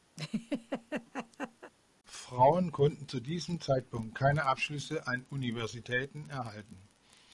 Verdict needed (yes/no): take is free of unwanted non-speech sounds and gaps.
no